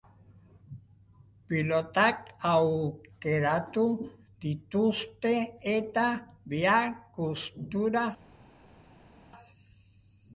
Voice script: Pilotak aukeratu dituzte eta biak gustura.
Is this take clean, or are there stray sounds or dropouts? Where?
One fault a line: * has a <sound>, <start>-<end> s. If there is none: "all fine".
all fine